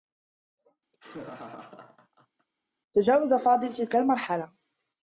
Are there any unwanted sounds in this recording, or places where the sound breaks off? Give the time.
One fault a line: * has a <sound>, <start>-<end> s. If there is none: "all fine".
* has a laugh, 0.9-2.5 s